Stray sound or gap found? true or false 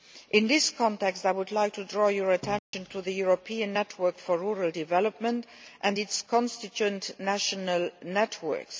true